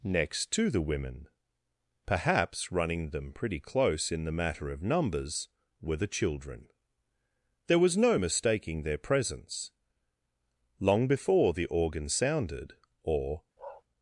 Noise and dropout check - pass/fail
fail